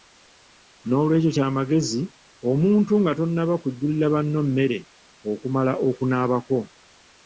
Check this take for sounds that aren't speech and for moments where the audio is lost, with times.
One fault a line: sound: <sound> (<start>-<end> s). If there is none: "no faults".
no faults